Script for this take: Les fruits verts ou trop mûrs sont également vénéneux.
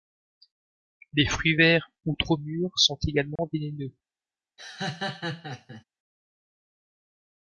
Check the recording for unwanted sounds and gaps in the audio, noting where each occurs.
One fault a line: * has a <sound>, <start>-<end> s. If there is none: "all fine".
* has a dropout, 3.4-3.4 s
* has a laugh, 4.6-5.8 s